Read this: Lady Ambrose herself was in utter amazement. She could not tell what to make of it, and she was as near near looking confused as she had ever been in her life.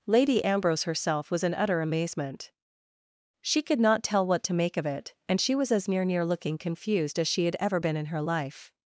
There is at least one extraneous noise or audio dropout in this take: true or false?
false